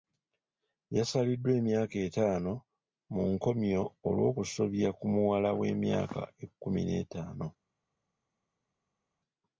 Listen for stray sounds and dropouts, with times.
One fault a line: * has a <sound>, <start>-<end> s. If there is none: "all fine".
all fine